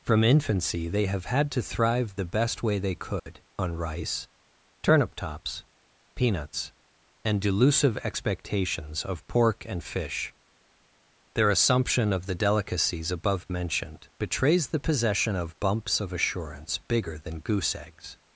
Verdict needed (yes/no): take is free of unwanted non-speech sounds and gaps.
no